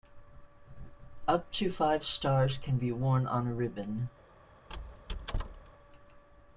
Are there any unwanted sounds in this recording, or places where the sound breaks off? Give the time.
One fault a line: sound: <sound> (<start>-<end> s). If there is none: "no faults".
sound: squeak (4.7-5.7 s)